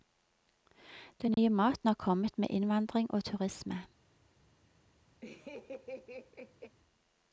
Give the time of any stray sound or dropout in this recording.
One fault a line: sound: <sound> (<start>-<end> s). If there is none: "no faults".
sound: dropout (1.3-1.4 s)
sound: laugh (5.2-6.8 s)